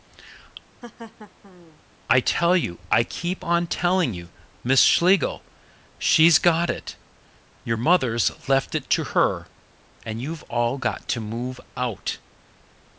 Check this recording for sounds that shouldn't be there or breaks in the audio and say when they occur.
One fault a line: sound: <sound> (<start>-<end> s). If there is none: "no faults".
sound: laugh (0.8-1.8 s)